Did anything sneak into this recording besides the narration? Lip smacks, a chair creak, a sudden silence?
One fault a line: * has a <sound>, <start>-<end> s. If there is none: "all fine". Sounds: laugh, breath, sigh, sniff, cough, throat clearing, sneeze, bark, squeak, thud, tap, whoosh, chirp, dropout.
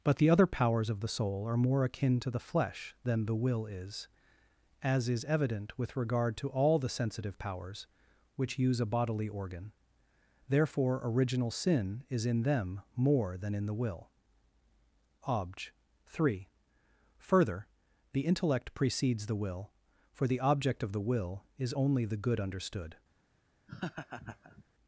* has a laugh, 23.7-24.6 s